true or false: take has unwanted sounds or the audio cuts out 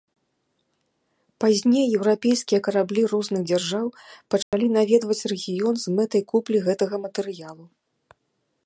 true